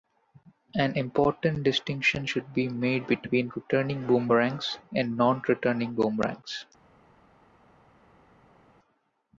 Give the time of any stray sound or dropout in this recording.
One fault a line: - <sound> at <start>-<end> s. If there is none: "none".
none